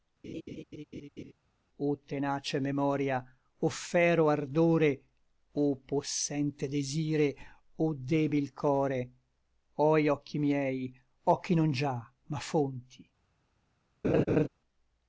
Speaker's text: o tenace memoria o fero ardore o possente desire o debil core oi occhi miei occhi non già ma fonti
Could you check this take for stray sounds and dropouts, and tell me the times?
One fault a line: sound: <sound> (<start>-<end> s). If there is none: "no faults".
sound: laugh (0.2-1.3 s)
sound: laugh (14.0-14.5 s)